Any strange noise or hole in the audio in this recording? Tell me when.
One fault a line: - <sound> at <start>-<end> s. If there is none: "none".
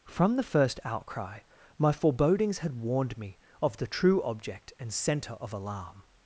none